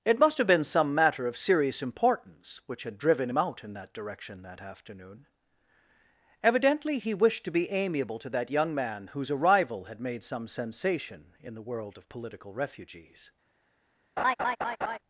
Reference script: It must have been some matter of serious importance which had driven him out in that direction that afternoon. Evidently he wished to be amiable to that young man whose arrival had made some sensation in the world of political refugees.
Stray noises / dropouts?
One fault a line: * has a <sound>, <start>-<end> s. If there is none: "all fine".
* has a laugh, 14.2-15.0 s